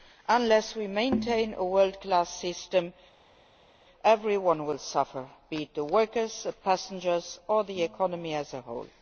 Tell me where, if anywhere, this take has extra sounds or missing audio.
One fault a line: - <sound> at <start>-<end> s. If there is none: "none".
none